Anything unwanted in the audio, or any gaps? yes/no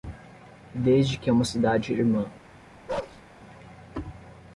yes